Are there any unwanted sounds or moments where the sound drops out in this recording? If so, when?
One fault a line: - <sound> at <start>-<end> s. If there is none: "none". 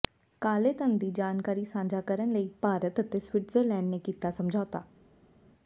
none